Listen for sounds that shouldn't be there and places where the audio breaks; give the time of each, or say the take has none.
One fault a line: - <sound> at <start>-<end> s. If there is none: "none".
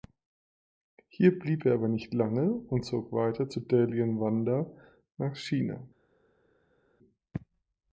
none